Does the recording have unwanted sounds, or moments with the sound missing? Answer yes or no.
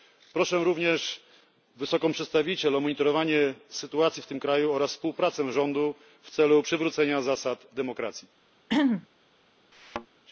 yes